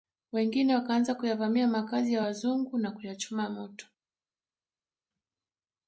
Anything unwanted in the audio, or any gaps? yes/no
no